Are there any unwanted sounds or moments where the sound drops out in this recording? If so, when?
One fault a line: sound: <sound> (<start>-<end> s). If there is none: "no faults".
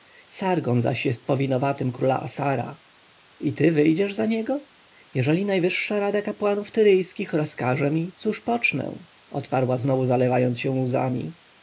no faults